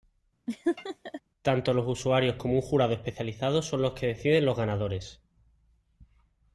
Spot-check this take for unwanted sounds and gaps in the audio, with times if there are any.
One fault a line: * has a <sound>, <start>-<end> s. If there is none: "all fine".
* has a laugh, 0.5-1.2 s